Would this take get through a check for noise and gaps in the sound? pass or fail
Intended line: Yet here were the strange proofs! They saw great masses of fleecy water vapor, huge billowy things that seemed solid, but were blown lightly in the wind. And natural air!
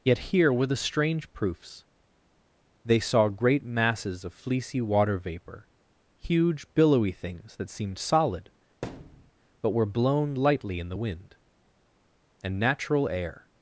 fail